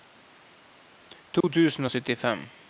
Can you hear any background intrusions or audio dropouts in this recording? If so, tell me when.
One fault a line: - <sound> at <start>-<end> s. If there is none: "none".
- dropout at 1.4-1.4 s